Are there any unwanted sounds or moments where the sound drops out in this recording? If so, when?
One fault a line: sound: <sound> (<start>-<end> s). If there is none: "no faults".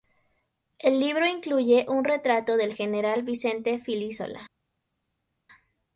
no faults